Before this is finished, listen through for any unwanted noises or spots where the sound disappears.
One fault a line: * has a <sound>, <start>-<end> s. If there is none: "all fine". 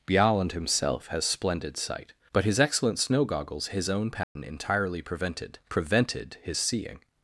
* has a dropout, 4.2-4.4 s